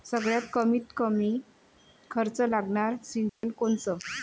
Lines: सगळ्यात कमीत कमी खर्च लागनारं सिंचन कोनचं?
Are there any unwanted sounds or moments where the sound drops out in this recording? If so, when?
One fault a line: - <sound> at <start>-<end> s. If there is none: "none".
- dropout at 3.3-3.4 s